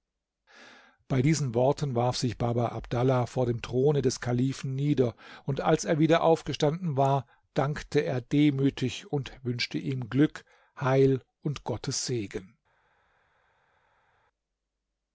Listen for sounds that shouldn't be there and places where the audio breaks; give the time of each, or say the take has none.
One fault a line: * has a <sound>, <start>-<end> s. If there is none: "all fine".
all fine